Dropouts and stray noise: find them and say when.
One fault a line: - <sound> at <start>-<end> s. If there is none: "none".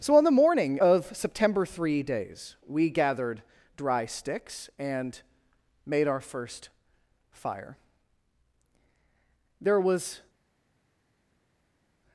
none